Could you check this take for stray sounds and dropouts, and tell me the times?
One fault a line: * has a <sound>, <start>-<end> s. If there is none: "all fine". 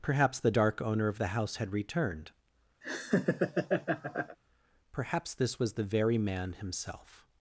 * has a laugh, 2.8-4.4 s